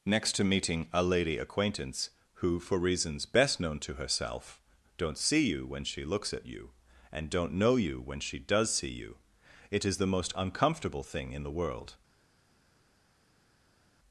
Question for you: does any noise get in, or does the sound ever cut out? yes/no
no